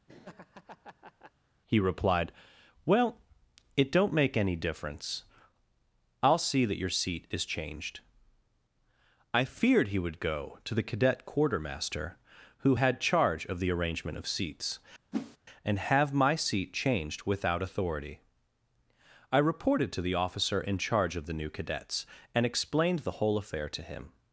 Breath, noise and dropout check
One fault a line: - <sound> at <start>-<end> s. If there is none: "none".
- laugh at 0.1-1.3 s
- whoosh at 15.1-15.4 s